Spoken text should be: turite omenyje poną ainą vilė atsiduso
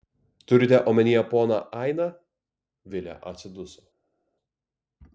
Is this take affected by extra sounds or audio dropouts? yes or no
no